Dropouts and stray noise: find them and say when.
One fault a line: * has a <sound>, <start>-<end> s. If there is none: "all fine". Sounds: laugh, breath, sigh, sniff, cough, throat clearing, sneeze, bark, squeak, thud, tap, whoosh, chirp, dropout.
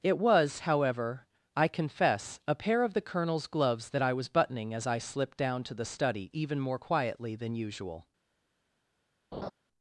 * has a laugh, 9.3-9.5 s